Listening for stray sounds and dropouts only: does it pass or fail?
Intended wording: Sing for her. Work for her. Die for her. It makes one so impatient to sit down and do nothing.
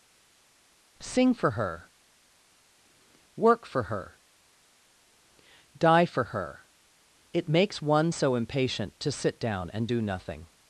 pass